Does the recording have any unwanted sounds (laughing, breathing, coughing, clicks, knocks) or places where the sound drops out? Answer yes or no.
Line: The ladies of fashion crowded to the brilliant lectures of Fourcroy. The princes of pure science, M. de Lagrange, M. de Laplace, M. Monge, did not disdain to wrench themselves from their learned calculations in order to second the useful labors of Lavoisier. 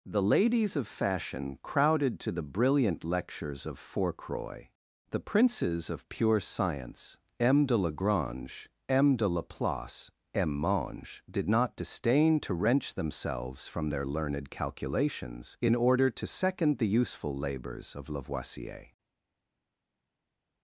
no